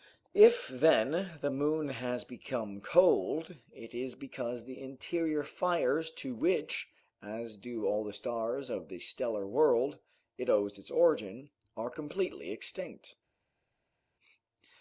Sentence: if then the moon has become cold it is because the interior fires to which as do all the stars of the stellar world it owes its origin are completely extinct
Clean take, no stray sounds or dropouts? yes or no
yes